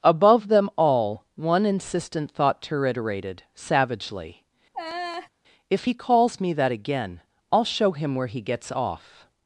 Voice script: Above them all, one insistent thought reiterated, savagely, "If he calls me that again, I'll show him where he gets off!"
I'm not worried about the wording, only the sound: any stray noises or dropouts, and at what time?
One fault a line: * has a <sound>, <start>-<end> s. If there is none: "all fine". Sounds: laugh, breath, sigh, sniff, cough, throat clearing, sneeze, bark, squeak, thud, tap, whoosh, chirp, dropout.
* has a laugh, 4.7-5.3 s